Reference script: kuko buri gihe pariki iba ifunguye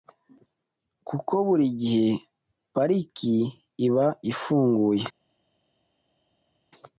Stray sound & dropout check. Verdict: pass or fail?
pass